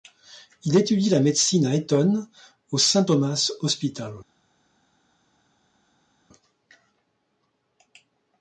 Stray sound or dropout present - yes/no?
no